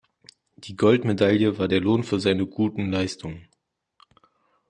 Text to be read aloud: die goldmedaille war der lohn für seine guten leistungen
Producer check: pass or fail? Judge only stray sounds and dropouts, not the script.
pass